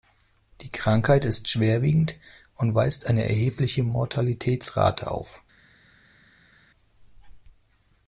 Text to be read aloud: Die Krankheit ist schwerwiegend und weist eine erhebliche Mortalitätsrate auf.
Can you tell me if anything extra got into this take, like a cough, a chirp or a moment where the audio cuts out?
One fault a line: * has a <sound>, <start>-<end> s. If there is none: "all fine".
all fine